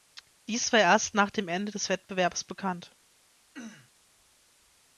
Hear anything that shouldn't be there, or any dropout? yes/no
yes